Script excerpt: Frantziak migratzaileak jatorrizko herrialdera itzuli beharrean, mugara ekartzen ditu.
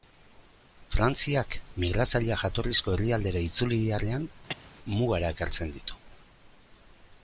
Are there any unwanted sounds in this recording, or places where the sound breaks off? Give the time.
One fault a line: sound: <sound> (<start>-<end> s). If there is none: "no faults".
sound: cough (4.5-4.7 s)